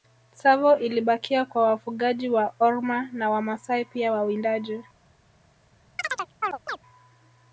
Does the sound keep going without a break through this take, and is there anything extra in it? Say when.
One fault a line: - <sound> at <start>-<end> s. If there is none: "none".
- chirp at 6.0-6.8 s